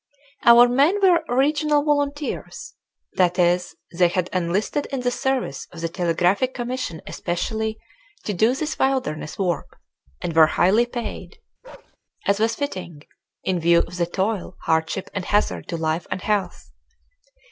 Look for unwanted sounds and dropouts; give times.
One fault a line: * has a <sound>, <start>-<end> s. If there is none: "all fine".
* has a bark, 11.6-12.0 s